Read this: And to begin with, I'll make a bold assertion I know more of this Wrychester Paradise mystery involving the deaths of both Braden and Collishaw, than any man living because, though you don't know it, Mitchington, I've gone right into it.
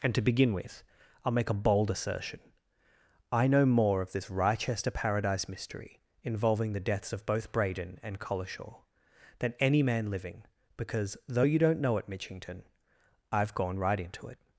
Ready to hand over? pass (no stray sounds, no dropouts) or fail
pass